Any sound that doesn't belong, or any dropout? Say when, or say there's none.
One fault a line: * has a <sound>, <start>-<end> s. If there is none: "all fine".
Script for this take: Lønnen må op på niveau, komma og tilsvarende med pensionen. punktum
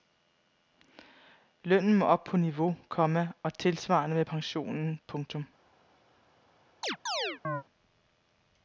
* has a chirp, 6.8-7.6 s